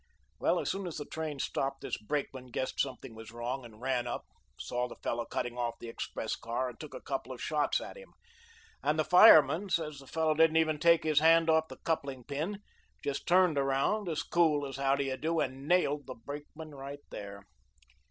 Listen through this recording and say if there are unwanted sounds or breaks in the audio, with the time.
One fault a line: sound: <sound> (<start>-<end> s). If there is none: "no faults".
no faults